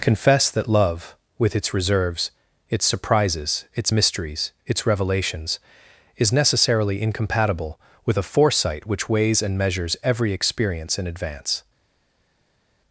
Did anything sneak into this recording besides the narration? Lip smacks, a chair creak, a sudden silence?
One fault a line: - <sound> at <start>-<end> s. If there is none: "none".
none